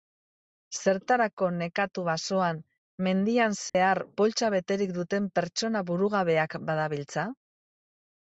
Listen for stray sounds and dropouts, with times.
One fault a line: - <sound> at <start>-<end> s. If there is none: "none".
- dropout at 3.7-3.7 s